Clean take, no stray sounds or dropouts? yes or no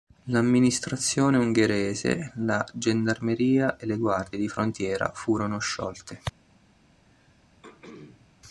no